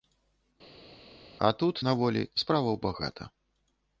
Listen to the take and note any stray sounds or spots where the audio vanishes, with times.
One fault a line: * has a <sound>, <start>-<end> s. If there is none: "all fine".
all fine